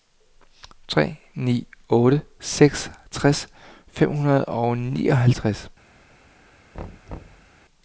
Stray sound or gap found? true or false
true